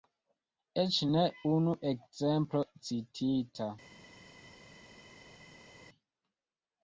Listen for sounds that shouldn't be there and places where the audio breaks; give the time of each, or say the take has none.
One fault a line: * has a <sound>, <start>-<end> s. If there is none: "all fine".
all fine